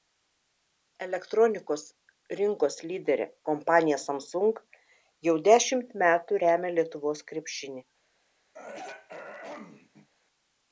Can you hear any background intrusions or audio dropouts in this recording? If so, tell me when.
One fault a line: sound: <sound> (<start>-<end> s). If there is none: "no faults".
sound: throat clearing (8.5-10.1 s)